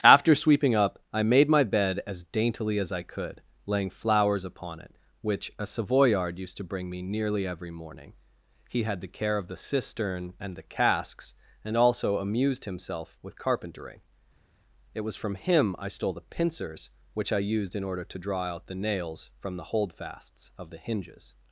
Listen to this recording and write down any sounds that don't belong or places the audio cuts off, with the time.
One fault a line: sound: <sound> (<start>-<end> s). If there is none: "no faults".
no faults